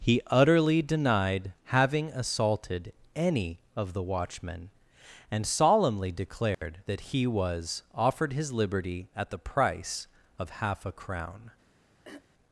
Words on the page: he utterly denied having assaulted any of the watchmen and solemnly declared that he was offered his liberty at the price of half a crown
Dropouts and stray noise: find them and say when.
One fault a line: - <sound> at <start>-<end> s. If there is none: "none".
- dropout at 6.5-6.6 s
- throat clearing at 12.0-12.3 s